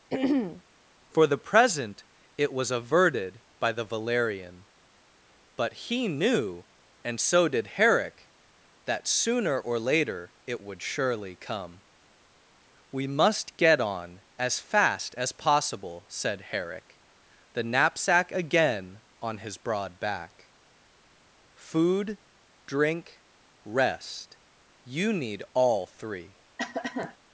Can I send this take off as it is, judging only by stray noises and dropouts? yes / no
no